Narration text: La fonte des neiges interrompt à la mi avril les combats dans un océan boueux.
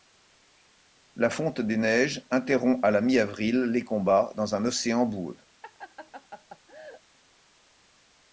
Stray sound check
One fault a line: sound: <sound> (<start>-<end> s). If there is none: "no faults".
sound: laugh (5.6-7.0 s)